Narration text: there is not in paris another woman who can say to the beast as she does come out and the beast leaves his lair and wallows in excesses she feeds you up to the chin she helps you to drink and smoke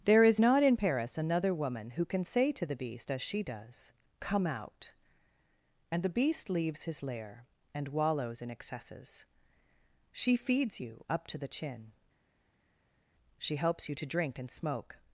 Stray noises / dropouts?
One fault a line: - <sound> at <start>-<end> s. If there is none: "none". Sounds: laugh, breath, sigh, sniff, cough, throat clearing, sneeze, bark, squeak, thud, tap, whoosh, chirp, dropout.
none